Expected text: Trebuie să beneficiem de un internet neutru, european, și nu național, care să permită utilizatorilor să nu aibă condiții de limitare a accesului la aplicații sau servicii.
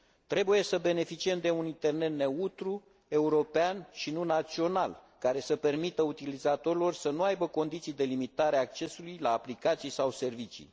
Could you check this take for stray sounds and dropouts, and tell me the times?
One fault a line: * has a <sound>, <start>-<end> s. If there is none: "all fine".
all fine